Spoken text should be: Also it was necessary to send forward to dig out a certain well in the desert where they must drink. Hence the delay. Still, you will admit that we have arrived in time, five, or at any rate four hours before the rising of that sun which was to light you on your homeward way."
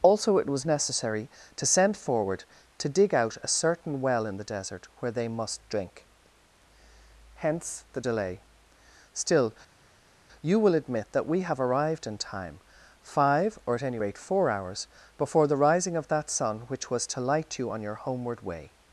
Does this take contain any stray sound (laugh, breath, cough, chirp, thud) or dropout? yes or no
no